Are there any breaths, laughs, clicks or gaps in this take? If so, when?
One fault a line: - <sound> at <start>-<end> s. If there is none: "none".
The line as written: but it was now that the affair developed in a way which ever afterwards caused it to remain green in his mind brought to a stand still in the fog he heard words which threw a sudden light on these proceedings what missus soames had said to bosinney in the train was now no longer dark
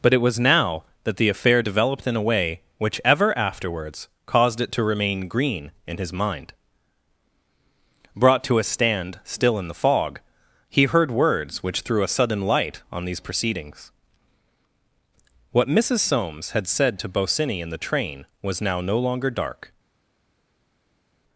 none